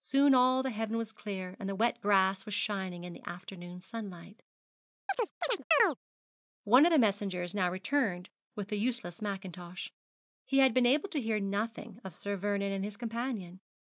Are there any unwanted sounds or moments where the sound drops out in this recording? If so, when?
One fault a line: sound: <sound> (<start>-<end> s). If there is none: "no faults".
sound: chirp (5.1-6.0 s)